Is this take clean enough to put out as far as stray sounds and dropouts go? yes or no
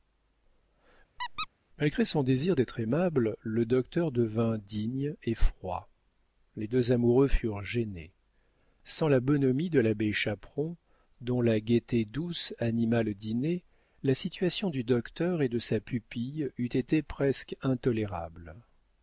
no